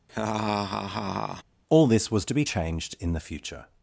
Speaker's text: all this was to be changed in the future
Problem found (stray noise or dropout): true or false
true